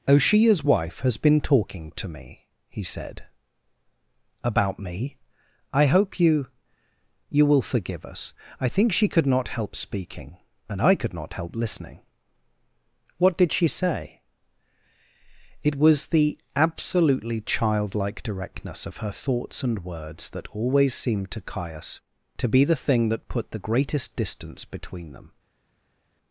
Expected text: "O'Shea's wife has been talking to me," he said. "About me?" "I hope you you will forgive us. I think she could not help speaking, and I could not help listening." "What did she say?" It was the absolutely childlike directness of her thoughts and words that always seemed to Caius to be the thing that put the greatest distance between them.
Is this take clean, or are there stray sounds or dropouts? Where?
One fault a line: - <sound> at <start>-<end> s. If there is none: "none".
none